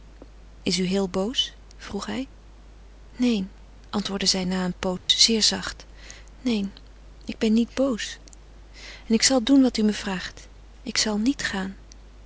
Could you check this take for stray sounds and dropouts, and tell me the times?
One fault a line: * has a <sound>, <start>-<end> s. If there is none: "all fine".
* has a dropout, 5.0-5.1 s